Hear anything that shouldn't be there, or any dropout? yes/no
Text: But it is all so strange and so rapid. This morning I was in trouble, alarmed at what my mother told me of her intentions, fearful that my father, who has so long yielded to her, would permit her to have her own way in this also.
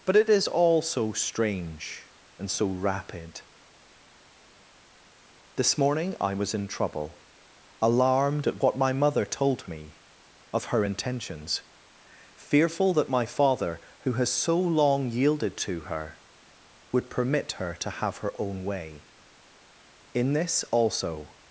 no